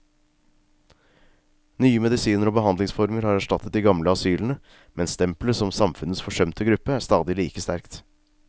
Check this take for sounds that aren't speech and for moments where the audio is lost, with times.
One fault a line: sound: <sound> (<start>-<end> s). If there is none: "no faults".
no faults